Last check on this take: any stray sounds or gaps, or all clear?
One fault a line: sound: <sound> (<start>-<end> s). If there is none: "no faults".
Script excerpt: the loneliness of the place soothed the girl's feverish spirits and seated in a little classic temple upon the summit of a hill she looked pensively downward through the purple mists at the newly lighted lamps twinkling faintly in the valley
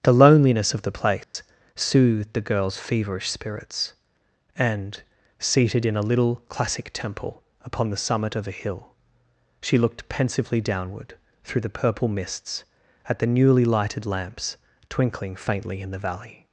sound: dropout (1.2-1.3 s)